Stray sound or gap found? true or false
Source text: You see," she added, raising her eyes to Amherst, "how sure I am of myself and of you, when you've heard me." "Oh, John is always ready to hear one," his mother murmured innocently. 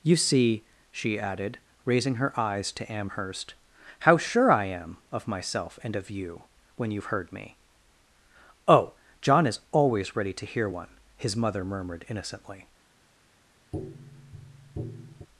true